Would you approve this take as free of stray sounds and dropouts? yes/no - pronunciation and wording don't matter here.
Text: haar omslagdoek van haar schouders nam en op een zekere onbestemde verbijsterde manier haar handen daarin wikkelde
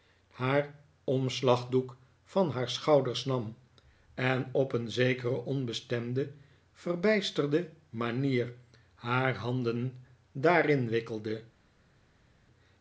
yes